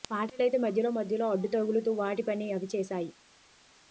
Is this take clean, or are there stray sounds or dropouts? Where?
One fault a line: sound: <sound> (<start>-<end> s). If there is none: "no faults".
no faults